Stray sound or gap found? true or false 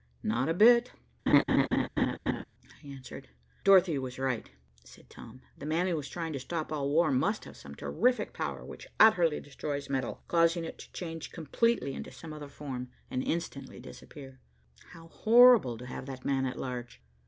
true